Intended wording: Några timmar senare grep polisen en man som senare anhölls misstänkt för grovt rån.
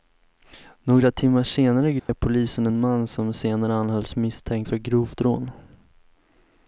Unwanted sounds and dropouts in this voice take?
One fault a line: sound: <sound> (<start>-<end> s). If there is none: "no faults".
sound: dropout (2.0-2.1 s)